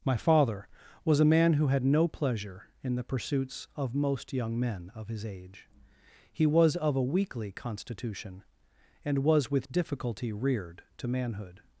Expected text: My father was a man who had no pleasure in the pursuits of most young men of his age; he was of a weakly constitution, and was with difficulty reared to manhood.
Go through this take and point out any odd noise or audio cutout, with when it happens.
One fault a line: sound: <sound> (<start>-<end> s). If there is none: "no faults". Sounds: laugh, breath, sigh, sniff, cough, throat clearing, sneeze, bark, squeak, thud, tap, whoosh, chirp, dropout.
no faults